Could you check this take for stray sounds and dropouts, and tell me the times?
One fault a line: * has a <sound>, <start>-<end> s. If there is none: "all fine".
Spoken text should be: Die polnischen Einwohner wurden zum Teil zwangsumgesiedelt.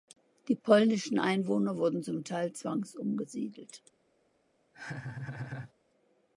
* has a laugh, 4.7-5.7 s